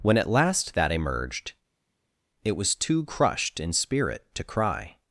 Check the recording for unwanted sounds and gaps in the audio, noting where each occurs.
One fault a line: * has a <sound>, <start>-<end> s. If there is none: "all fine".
all fine